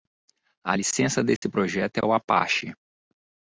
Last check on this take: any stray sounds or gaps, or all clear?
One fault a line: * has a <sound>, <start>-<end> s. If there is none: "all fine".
* has a dropout, 1.4-1.4 s